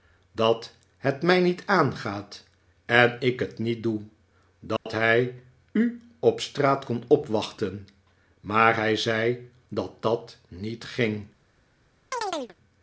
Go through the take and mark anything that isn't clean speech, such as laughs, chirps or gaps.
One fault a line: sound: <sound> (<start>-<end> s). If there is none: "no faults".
sound: dropout (4.8-4.9 s)
sound: chirp (12.1-12.6 s)